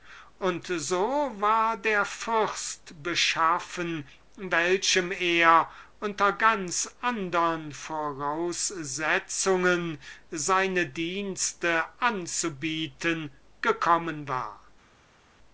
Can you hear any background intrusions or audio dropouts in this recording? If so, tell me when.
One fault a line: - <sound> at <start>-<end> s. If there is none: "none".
none